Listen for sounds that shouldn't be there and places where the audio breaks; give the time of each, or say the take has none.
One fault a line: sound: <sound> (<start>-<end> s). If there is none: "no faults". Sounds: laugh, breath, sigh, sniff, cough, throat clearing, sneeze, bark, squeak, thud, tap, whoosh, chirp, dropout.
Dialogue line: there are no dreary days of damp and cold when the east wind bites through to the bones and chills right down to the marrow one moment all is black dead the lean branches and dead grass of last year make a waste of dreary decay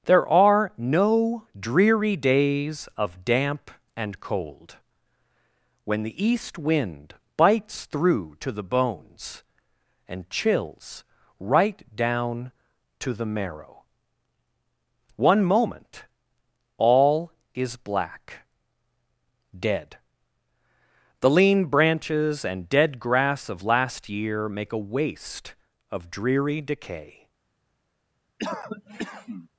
sound: cough (28.4-29.5 s)